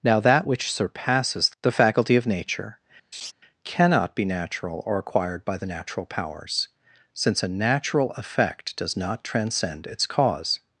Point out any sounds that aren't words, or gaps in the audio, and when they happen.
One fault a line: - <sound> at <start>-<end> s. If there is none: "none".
- laugh at 3.1-3.3 s